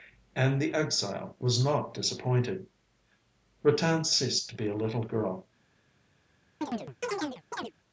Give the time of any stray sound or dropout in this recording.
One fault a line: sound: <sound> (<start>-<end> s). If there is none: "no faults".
sound: chirp (6.6-7.7 s)